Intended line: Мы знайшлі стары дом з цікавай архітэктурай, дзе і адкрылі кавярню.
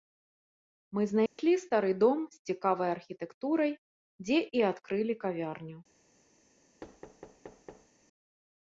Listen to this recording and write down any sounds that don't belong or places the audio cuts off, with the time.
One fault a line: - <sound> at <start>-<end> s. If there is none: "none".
- dropout at 1.3-1.4 s
- thud at 6.8-7.9 s